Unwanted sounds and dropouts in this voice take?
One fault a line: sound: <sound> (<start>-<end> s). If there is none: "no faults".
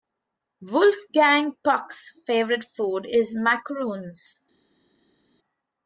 no faults